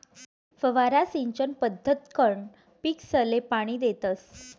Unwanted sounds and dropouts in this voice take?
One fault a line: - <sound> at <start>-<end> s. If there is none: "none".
none